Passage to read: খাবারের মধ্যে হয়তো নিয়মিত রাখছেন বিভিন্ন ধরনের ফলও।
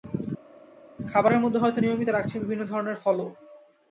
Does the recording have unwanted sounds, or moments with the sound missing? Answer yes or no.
no